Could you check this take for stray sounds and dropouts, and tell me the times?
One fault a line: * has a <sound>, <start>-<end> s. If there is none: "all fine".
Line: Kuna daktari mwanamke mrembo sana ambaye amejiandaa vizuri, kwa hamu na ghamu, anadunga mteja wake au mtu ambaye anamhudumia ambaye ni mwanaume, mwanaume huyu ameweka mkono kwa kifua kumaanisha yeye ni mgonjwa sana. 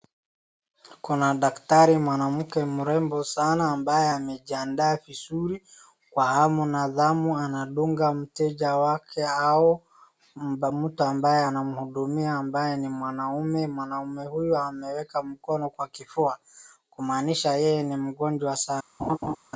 * has a laugh, 19.0-19.4 s